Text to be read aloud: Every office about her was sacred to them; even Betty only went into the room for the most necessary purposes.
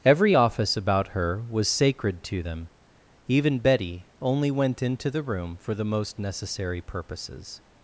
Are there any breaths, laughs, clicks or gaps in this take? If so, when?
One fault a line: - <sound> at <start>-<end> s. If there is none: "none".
none